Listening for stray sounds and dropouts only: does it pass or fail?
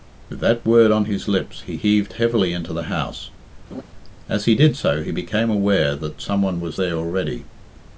fail